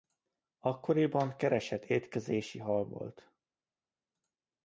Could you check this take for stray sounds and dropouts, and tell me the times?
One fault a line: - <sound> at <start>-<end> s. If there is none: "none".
none